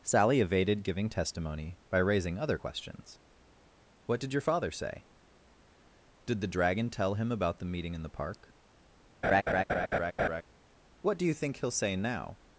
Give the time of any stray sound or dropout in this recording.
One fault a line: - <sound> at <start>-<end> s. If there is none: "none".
- laugh at 9.2-10.4 s